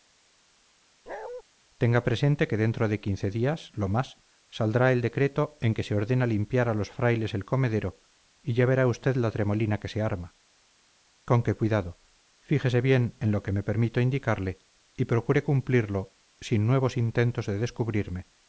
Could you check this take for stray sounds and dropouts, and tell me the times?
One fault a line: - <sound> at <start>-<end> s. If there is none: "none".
- bark at 1.1-1.4 s